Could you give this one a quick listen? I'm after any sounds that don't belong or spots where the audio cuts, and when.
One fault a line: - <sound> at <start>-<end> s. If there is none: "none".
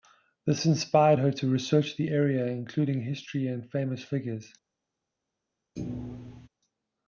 - thud at 5.8-6.5 s